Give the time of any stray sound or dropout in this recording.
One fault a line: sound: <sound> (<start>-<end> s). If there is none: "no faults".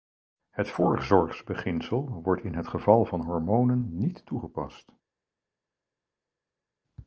no faults